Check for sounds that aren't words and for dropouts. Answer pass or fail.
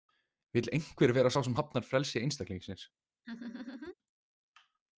fail